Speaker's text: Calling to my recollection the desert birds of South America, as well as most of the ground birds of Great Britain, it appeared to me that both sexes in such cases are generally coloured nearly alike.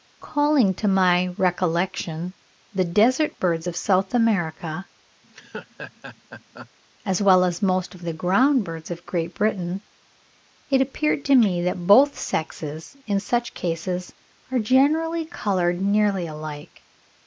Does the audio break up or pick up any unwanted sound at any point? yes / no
yes